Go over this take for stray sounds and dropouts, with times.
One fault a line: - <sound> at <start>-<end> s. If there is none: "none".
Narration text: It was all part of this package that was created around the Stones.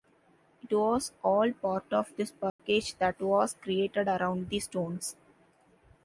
- dropout at 2.5-2.6 s